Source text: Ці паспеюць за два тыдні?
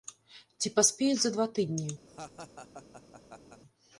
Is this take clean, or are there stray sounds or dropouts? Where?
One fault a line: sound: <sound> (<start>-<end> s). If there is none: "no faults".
sound: laugh (2.1-3.6 s)